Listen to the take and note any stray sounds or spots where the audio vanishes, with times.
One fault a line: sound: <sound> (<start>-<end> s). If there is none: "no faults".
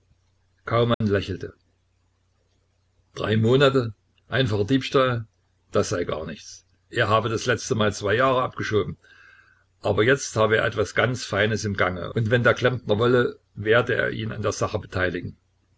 sound: dropout (0.9-1.0 s)